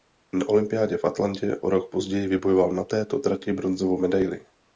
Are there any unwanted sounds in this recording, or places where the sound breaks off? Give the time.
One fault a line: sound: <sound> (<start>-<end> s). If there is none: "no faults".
no faults